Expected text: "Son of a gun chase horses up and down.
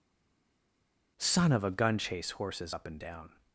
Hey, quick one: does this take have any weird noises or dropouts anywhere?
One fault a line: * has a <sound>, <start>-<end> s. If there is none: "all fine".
all fine